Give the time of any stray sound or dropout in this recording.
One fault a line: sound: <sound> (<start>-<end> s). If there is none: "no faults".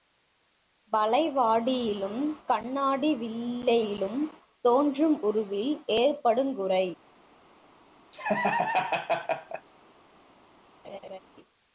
sound: laugh (8.1-9.7 s)
sound: laugh (10.8-11.2 s)